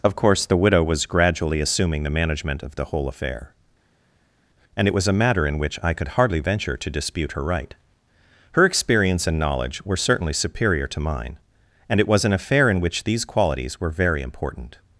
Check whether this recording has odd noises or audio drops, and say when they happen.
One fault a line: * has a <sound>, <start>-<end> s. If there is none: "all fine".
all fine